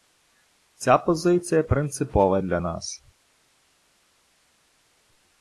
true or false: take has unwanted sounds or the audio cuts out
false